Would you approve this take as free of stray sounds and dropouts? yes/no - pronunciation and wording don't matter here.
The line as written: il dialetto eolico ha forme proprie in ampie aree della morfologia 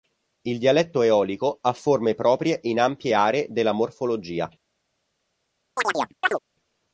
no